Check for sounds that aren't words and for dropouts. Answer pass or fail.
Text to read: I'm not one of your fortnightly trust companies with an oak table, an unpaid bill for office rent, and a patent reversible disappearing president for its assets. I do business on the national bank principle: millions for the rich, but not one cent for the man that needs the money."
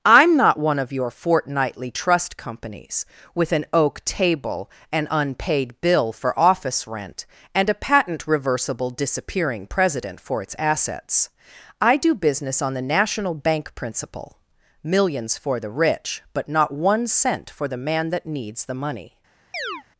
fail